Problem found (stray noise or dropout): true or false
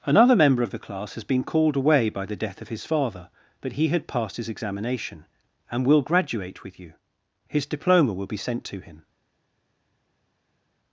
false